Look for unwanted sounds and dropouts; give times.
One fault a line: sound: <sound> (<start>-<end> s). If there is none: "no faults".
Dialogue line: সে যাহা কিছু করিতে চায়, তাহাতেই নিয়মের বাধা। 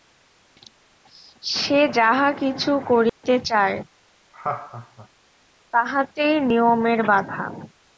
sound: dropout (3.1-3.2 s)
sound: laugh (4.3-5.1 s)